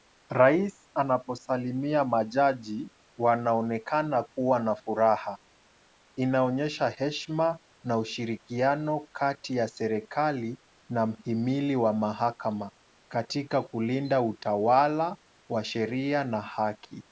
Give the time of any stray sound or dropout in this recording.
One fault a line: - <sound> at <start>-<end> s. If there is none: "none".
none